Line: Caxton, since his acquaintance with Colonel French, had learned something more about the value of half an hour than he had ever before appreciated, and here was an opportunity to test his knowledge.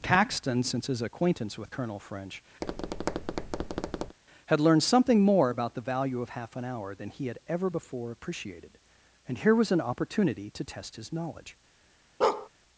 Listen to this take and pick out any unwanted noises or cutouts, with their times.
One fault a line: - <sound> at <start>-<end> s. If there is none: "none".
- tap at 2.6-4.2 s
- bark at 12.2-12.5 s